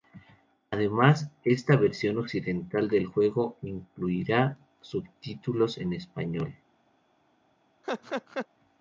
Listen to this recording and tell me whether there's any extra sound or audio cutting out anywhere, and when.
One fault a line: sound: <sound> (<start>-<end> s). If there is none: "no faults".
sound: laugh (7.8-8.5 s)